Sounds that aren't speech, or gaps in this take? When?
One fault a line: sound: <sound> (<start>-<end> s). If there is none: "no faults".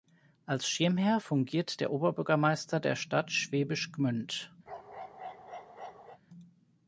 sound: bark (4.7-6.2 s)